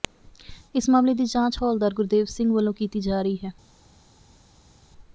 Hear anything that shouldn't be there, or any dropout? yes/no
no